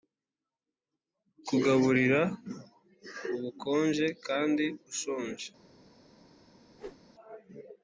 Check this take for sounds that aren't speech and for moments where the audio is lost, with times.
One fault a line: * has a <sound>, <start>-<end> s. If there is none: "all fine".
* has a whoosh, 6.7-7.0 s